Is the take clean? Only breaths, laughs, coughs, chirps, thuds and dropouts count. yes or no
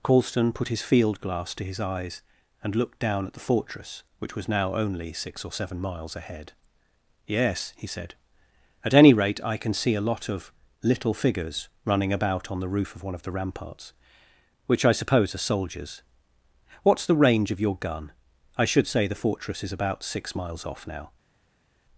yes